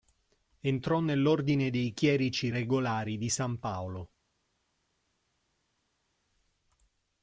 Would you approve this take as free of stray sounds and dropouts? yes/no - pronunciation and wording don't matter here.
yes